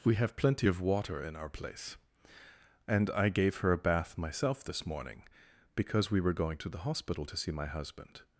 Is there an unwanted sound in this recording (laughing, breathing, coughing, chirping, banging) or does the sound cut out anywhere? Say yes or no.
no